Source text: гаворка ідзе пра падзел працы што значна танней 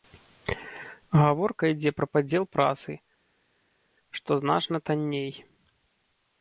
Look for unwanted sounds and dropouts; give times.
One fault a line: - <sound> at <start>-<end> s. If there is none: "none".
none